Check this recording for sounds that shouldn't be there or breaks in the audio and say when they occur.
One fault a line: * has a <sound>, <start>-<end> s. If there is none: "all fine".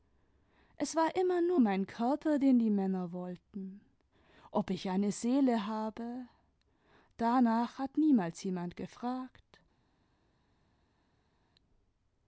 all fine